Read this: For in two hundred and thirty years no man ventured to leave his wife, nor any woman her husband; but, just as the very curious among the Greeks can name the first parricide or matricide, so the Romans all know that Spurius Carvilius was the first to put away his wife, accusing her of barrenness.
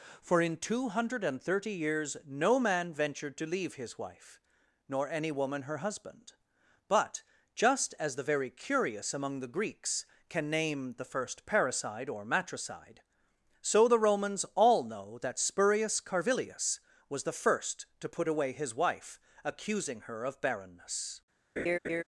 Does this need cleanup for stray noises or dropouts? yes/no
yes